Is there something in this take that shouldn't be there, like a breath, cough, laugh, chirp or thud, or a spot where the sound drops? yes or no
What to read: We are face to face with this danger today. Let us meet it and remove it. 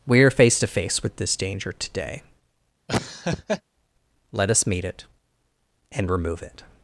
yes